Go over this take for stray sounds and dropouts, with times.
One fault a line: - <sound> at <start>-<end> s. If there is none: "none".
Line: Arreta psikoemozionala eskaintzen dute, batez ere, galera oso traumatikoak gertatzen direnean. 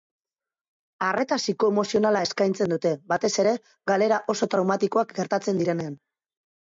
none